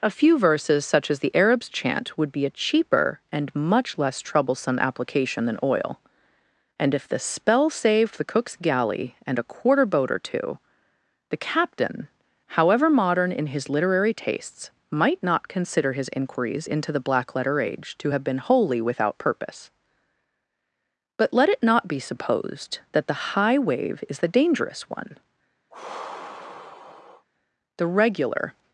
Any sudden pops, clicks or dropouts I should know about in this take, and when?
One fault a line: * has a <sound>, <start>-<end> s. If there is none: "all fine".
* has a sigh, 25.7-27.3 s